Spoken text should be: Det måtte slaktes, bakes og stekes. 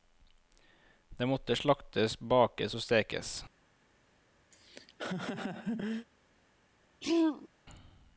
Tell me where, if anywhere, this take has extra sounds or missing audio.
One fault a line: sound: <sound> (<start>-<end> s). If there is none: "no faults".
sound: laugh (4.5-6.1 s)
sound: throat clearing (7.0-7.5 s)